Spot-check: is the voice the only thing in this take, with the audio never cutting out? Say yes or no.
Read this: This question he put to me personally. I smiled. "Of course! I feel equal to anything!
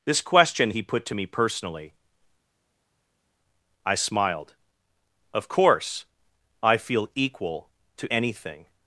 yes